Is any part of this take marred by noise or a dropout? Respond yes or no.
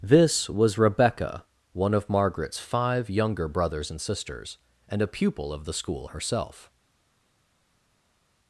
no